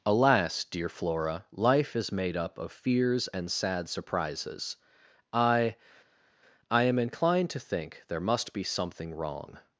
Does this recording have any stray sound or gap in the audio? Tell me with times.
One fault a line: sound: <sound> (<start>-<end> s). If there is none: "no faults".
no faults